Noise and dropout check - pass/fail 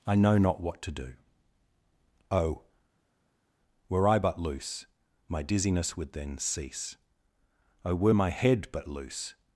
pass